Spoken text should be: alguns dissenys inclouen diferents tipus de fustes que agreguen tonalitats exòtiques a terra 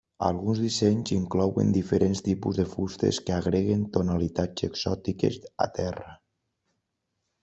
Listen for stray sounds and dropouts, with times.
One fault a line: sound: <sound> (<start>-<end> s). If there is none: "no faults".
no faults